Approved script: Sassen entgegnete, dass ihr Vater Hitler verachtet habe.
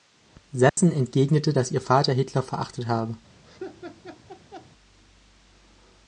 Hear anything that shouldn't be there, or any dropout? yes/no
yes